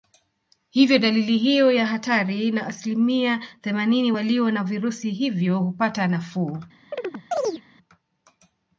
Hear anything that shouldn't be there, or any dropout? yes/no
yes